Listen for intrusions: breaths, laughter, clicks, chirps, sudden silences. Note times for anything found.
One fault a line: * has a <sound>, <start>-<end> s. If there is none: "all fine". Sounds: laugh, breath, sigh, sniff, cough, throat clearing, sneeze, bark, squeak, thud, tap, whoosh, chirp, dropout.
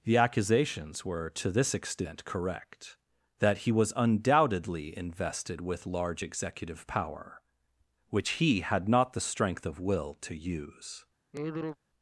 * has a sigh, 11.3-11.8 s